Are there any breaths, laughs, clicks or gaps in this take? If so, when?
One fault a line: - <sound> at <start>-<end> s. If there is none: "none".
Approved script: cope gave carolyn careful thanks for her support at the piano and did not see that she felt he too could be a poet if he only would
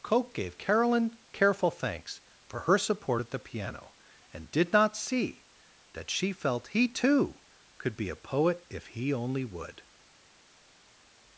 none